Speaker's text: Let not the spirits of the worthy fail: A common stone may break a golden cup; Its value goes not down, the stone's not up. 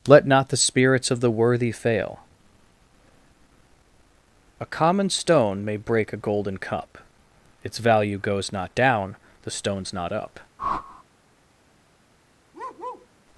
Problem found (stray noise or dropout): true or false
true